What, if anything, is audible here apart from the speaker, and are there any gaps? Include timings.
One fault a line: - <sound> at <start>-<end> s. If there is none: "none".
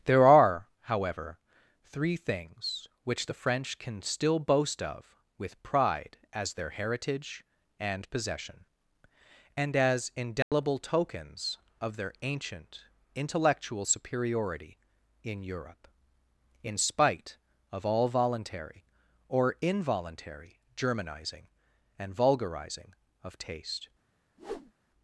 - dropout at 10.4-10.5 s
- whoosh at 24.4-24.7 s